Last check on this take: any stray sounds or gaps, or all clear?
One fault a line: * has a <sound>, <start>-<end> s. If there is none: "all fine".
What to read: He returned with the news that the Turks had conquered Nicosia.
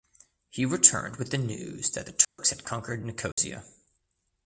* has a dropout, 2.2-2.4 s
* has a dropout, 3.3-3.4 s